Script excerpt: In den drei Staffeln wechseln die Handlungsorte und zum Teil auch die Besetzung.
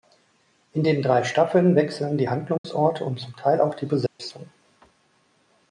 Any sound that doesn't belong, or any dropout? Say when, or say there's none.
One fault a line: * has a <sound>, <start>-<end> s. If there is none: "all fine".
* has a dropout, 2.6-2.6 s
* has a dropout, 4.1-4.2 s